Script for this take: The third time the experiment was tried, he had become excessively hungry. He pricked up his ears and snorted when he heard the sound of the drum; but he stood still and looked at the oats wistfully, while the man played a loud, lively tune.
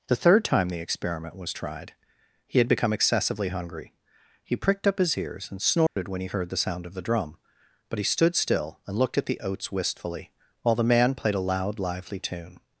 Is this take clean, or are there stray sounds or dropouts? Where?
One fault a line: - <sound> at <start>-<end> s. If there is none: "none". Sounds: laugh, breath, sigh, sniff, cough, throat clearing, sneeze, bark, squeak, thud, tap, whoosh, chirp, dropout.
- dropout at 5.9-6.0 s